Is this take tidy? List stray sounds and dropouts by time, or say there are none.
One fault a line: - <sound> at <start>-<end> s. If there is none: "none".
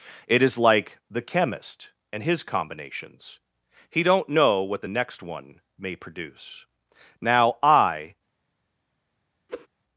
- whoosh at 9.5-9.7 s